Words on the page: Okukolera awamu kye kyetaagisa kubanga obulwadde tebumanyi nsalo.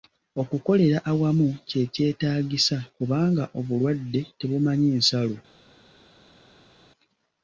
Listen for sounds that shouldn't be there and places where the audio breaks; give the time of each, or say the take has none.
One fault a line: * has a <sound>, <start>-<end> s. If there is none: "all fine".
all fine